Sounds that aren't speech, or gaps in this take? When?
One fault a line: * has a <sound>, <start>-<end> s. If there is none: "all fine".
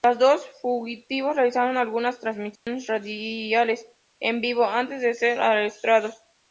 * has a dropout, 2.6-2.7 s